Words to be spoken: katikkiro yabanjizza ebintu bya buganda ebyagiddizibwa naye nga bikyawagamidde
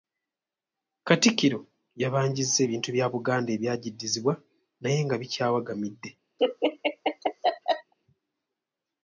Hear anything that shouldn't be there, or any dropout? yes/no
yes